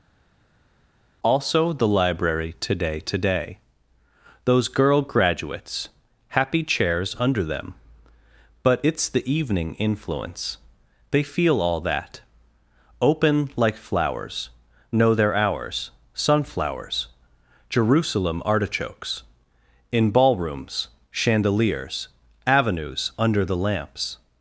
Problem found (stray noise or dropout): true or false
false